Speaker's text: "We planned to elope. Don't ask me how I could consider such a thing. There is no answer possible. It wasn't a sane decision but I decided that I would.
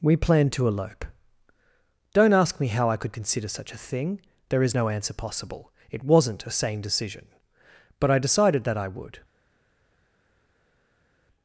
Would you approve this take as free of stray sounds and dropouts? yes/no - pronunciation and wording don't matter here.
yes